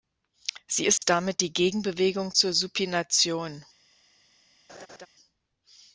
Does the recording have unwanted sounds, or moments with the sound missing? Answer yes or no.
yes